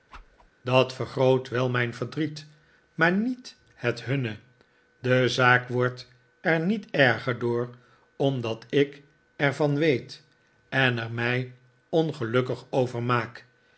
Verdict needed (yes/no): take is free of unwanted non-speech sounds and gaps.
no